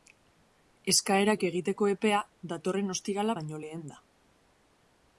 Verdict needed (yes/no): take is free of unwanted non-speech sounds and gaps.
yes